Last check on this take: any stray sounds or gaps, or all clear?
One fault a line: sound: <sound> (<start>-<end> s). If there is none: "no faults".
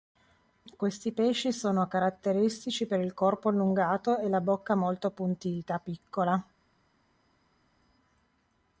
no faults